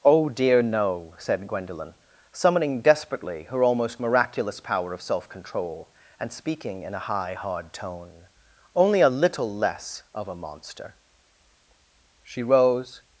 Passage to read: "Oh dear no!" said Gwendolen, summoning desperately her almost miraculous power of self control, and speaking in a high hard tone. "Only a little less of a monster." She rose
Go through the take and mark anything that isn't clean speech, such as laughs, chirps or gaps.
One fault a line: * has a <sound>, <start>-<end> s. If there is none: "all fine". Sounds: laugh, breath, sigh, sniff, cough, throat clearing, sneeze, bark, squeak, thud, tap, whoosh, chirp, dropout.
all fine